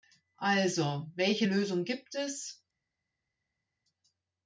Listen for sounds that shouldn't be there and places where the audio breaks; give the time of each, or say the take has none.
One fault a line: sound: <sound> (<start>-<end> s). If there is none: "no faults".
no faults